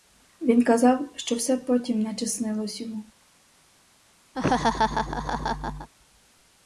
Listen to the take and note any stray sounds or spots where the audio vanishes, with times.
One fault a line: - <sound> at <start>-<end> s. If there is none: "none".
- laugh at 4.3-5.9 s